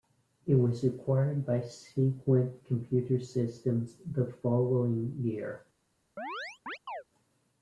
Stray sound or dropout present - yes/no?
yes